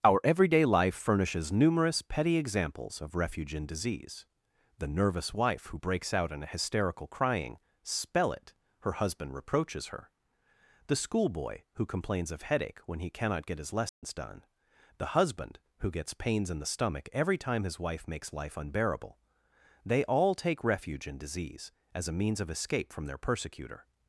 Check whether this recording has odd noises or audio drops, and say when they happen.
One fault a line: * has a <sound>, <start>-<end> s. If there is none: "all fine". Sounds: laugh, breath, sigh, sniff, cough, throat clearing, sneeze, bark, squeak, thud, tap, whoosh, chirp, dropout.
* has a dropout, 13.9-14.0 s